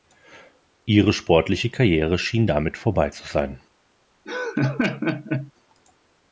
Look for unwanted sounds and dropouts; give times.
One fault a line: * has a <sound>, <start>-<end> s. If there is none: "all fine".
* has a laugh, 4.3-5.5 s